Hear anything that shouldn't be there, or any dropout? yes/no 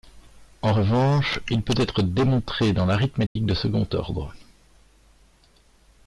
yes